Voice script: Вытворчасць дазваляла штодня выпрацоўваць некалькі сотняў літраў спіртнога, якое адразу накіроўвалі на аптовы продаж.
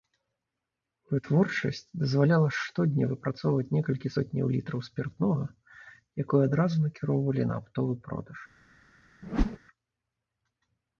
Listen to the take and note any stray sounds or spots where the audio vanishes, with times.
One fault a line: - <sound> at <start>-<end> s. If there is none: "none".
- whoosh at 9.2-9.6 s